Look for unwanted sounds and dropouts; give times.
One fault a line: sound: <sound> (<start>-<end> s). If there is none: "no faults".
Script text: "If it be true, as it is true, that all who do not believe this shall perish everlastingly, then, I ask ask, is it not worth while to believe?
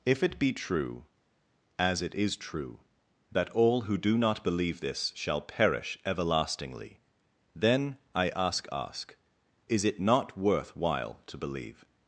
no faults